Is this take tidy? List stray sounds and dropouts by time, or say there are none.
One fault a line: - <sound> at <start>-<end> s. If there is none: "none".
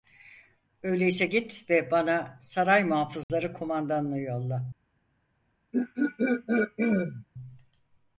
- dropout at 3.2-3.3 s
- throat clearing at 5.7-7.3 s